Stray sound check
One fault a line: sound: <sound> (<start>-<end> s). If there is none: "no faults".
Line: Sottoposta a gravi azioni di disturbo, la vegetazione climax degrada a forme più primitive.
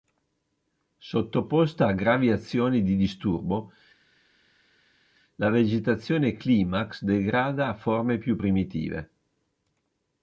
no faults